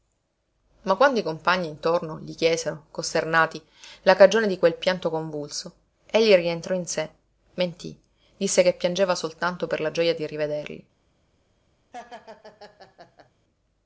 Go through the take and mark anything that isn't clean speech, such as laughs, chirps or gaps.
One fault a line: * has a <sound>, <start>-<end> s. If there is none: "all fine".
* has a laugh, 11.9-13.3 s